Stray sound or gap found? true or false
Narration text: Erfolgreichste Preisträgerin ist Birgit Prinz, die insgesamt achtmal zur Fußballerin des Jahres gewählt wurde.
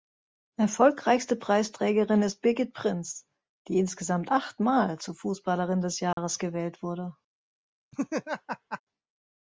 true